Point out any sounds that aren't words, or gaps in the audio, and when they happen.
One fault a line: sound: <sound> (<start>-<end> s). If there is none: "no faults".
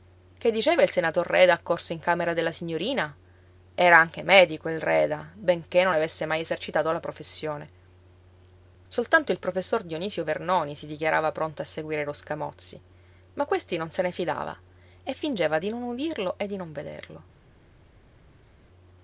no faults